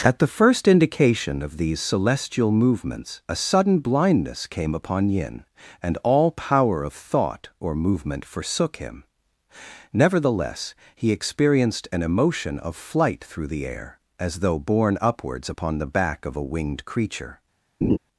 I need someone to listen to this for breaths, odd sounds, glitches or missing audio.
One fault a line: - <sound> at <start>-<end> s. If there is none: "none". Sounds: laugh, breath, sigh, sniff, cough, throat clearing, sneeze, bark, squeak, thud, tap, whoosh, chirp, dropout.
- laugh at 17.8-18.0 s